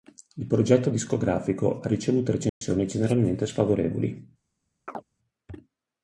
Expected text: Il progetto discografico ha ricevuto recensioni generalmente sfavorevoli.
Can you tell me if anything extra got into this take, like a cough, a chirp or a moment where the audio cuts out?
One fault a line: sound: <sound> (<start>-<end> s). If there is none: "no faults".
sound: dropout (2.5-2.6 s)
sound: chirp (4.9-5.0 s)